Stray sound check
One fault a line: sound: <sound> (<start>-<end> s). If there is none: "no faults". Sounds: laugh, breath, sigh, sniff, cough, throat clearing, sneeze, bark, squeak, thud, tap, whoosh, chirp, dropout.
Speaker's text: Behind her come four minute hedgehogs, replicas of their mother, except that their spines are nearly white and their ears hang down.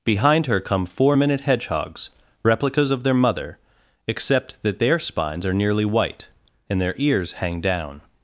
no faults